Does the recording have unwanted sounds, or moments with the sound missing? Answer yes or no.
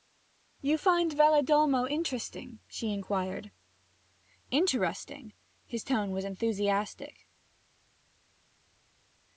no